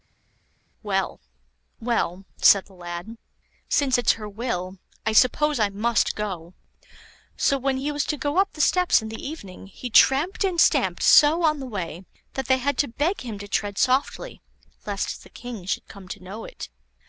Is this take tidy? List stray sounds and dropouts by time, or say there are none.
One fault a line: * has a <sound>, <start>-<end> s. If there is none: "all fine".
all fine